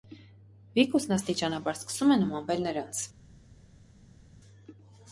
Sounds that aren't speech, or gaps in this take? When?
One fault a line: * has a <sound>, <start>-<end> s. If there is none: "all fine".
all fine